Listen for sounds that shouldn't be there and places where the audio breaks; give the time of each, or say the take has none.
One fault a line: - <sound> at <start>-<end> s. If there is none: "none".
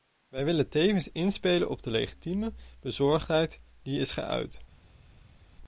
none